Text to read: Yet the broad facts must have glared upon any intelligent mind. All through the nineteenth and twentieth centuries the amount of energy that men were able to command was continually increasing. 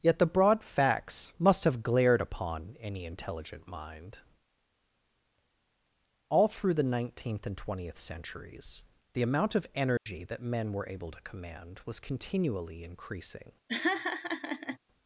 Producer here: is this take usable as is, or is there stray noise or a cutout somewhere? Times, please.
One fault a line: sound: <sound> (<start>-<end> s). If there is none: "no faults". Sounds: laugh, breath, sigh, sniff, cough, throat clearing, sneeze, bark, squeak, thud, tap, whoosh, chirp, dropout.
sound: dropout (10.0-10.1 s)
sound: laugh (13.7-14.8 s)